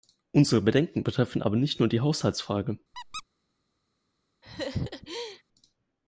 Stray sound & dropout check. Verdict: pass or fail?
fail